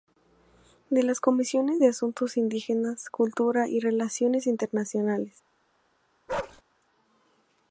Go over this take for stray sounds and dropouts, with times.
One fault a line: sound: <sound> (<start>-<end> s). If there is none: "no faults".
sound: bark (6.3-6.6 s)